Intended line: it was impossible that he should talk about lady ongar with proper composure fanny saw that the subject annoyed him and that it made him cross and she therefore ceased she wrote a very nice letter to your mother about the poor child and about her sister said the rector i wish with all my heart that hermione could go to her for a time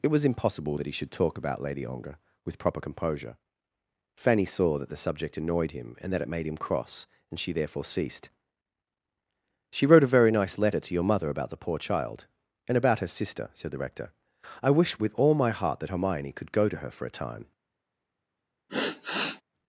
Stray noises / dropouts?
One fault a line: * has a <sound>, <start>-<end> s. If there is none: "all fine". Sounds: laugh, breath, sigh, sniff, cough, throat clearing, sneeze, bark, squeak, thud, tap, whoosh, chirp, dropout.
* has a sigh, 18.7-19.4 s